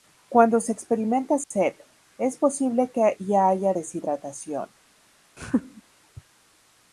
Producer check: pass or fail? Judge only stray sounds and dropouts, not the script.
fail